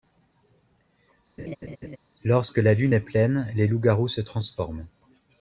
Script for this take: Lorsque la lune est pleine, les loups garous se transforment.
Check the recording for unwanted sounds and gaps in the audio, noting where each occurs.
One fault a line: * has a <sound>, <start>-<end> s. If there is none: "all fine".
* has a laugh, 1.4-2.0 s